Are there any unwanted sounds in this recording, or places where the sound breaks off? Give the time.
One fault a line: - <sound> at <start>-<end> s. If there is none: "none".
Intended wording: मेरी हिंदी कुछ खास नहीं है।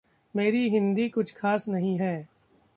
none